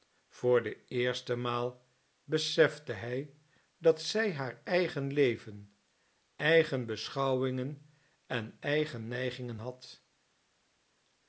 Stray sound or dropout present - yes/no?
no